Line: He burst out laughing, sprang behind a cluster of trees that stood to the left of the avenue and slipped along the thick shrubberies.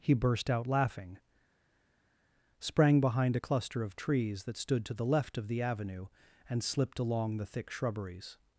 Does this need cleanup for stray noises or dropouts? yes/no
no